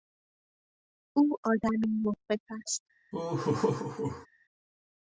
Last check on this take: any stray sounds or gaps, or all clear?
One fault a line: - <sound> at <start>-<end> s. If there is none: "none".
- laugh at 3.1-4.3 s